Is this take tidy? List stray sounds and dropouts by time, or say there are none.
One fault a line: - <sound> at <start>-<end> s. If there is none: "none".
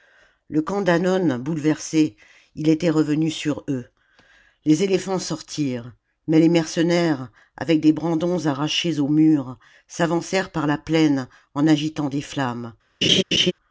- laugh at 13.0-13.5 s